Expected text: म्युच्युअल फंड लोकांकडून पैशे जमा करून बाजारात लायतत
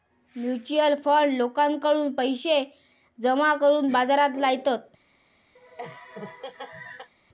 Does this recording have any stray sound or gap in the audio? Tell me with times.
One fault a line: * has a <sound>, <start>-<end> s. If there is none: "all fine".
* has a laugh, 5.6-7.1 s